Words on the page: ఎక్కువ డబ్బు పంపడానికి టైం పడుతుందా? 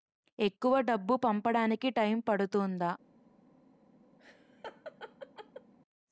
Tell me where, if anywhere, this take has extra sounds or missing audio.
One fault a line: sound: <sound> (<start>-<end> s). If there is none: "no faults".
sound: laugh (4.2-5.7 s)